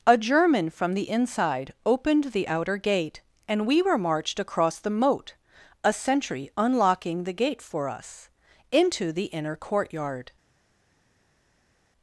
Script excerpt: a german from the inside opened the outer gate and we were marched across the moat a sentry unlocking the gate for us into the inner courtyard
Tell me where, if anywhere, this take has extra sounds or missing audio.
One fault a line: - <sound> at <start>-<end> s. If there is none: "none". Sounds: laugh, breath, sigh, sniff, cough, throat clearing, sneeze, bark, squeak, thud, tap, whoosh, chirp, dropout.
none